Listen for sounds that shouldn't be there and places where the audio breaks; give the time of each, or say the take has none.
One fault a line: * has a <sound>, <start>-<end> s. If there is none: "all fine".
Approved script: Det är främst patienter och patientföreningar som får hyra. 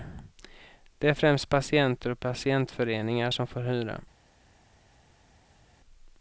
all fine